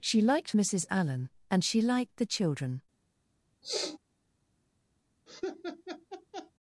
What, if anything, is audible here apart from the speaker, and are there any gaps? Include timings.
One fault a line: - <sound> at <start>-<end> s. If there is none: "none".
- sniff at 3.6-4.0 s
- laugh at 5.3-6.5 s